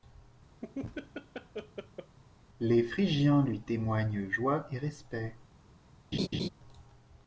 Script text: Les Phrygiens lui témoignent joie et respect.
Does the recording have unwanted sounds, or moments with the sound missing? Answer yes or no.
yes